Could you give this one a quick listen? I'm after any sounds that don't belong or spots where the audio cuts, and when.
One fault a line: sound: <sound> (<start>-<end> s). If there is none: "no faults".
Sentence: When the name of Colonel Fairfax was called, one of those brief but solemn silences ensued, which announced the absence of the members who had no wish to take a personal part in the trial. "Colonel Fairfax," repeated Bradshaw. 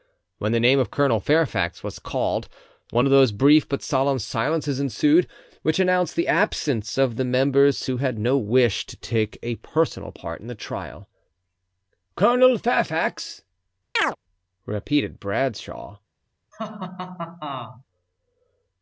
sound: chirp (14.0-14.2 s)
sound: laugh (16.5-17.8 s)